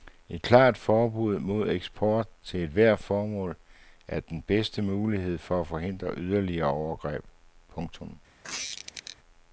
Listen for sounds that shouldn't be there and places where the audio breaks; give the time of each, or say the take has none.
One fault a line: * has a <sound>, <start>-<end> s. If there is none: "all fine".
* has a squeak, 8.4-9.2 s